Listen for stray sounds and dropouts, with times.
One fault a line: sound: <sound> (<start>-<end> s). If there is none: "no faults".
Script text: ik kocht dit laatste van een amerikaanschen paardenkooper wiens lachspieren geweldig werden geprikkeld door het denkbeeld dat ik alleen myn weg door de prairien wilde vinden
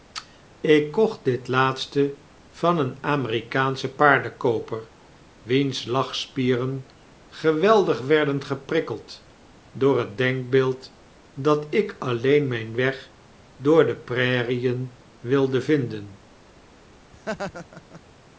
sound: laugh (17.1-18.0 s)